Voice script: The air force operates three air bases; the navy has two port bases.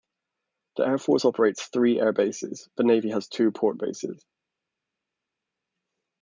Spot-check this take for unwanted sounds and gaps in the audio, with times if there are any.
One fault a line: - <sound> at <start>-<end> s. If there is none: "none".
none